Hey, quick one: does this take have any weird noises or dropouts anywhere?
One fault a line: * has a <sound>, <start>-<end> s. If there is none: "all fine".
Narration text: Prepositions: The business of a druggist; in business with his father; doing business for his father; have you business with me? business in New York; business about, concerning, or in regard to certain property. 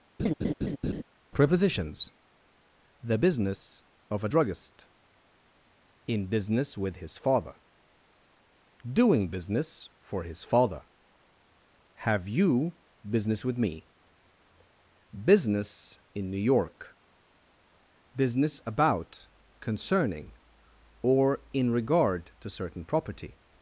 * has a laugh, 0.2-1.0 s